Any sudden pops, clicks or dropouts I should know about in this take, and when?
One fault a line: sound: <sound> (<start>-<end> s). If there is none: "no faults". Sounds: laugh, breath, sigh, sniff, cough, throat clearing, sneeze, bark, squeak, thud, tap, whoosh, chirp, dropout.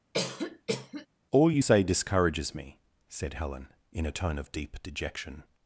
sound: cough (0.1-1.1 s)